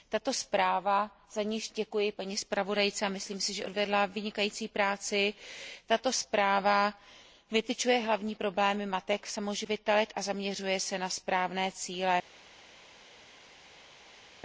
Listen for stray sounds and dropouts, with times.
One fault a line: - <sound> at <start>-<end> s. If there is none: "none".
none